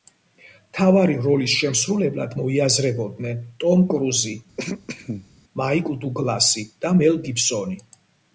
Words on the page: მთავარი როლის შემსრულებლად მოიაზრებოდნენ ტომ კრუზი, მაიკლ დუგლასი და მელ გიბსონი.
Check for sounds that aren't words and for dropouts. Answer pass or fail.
fail